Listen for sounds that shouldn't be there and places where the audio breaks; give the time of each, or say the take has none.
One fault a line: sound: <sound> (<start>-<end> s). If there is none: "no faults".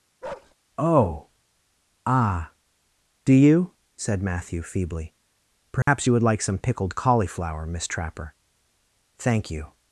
sound: bark (0.2-0.5 s)
sound: dropout (5.8-5.9 s)